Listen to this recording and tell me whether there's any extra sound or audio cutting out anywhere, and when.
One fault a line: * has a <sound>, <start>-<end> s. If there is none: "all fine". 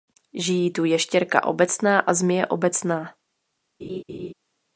* has a laugh, 3.8-4.3 s